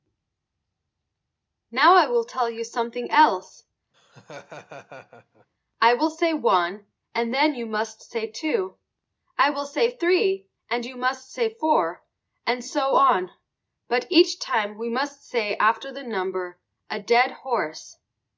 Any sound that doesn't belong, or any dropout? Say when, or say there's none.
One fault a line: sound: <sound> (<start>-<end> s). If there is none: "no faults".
sound: laugh (3.9-5.5 s)